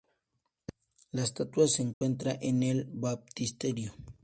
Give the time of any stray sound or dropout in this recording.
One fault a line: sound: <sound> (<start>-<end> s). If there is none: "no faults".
sound: dropout (1.9-2.0 s)